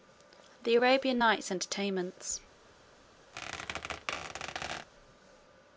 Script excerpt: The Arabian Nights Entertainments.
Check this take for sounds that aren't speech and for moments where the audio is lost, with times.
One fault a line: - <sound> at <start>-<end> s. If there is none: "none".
- squeak at 3.3-4.9 s